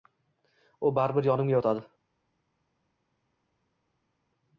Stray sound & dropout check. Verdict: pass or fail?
pass